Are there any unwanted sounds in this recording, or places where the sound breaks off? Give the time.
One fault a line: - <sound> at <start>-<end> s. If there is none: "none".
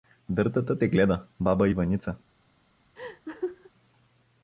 - laugh at 3.0-3.7 s